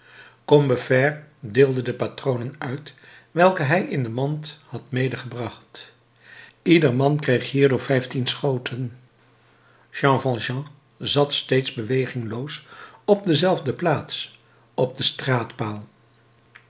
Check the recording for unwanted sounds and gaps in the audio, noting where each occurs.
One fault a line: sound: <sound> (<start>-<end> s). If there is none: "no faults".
no faults